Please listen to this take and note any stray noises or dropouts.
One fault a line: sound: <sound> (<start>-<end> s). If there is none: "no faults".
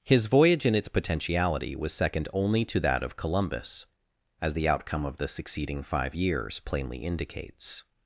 no faults